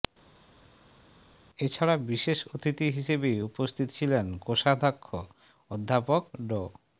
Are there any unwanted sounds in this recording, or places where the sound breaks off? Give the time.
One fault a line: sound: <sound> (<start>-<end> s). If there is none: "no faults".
no faults